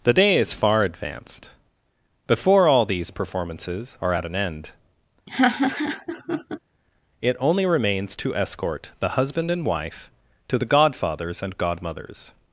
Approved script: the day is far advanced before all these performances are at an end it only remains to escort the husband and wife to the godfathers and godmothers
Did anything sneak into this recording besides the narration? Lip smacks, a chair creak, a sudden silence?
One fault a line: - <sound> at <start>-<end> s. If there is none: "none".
- laugh at 5.3-6.6 s